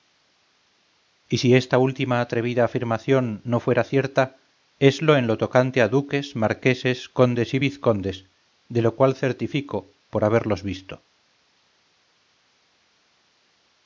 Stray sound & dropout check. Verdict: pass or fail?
pass